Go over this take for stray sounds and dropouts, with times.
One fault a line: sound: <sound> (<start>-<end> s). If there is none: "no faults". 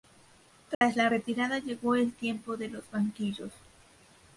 sound: dropout (0.7-0.8 s)